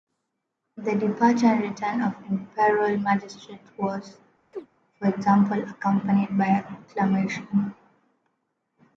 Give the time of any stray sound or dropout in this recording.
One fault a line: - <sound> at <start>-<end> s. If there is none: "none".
- chirp at 4.5-4.7 s